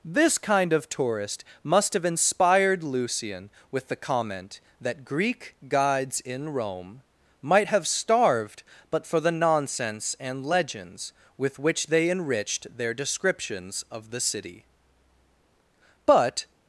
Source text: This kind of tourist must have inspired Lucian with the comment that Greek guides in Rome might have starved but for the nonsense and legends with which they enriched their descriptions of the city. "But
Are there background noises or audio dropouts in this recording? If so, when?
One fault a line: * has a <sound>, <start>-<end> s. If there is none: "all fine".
all fine